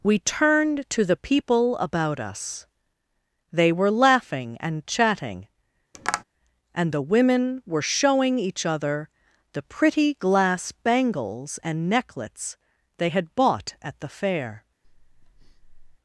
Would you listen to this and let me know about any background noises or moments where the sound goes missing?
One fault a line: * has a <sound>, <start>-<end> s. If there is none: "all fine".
* has a tap, 5.9-6.2 s
* has a breath, 14.8-16.0 s